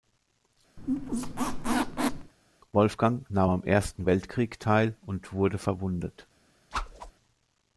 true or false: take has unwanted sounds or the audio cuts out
true